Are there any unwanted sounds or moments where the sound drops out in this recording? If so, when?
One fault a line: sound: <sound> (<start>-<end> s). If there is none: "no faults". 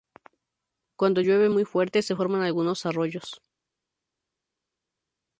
no faults